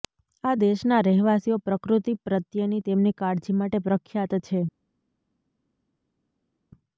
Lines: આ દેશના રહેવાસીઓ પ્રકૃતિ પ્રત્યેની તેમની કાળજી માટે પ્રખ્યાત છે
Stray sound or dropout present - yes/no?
no